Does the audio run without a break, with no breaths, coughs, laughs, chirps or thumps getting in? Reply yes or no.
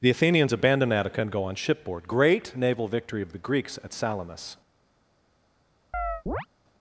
no